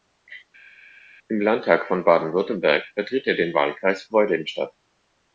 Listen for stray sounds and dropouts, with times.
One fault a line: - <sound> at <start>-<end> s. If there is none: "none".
none